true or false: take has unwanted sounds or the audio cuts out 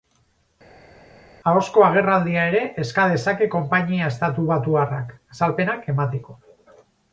false